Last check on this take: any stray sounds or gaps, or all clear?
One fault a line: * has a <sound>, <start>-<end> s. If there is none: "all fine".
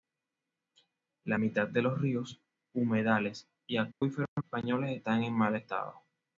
* has a dropout, 3.9-4.0 s